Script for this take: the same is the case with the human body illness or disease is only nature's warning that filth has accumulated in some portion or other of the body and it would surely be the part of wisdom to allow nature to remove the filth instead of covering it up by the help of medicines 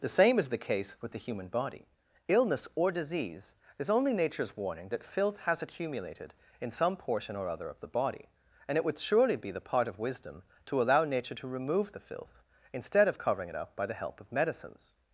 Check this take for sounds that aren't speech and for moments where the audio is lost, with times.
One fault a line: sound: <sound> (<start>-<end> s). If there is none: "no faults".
no faults